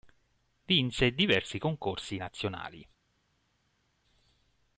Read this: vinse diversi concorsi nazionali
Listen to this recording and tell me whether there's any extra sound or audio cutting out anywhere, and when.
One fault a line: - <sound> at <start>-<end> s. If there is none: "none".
none